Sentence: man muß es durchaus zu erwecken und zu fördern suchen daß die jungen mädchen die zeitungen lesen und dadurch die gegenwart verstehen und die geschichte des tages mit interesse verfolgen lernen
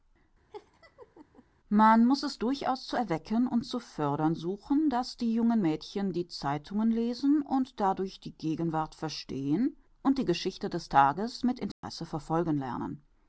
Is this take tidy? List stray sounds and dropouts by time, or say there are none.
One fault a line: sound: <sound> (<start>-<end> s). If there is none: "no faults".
sound: laugh (0.5-1.4 s)
sound: dropout (11.7-11.8 s)